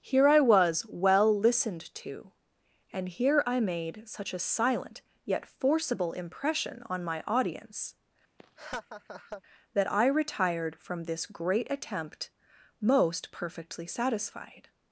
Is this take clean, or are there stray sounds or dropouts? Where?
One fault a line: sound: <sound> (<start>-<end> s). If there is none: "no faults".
sound: laugh (8.4-9.4 s)